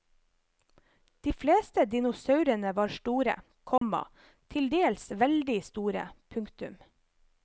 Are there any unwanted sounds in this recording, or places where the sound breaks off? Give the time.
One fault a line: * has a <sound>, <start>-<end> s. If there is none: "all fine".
* has a dropout, 3.8-3.8 s